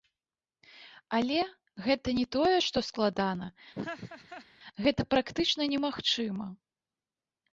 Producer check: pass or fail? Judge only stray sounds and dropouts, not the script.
fail